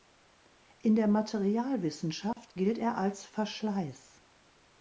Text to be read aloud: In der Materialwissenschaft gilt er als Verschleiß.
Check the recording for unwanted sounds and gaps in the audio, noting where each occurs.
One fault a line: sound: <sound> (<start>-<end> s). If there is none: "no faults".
sound: dropout (2.3-2.4 s)